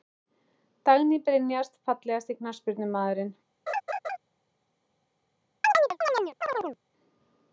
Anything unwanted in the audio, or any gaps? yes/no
yes